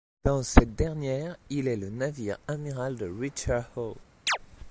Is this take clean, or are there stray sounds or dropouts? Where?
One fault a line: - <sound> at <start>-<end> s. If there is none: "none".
- chirp at 4.3-4.4 s